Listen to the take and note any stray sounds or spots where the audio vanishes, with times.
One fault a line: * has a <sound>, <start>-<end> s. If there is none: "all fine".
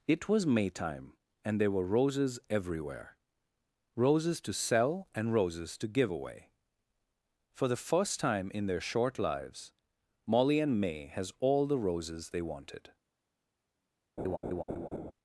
* has a laugh, 14.2-15.1 s